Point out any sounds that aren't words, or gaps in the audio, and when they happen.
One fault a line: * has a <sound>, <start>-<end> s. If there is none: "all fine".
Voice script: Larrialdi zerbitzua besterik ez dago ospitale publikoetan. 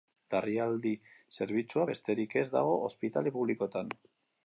all fine